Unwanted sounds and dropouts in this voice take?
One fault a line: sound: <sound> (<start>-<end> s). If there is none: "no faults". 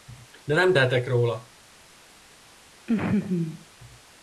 sound: laugh (2.9-3.7 s)